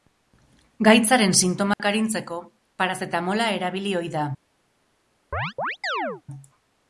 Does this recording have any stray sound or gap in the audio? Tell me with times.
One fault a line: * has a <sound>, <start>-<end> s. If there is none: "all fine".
* has a dropout, 1.7-1.8 s
* has a chirp, 5.3-6.2 s